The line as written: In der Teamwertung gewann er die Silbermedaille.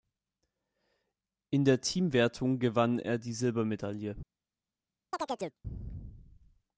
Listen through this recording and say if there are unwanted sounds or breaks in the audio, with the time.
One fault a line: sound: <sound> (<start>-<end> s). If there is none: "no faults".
sound: chirp (5.1-5.6 s)